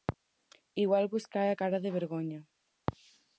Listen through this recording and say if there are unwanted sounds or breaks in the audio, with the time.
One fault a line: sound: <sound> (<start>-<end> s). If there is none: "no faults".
no faults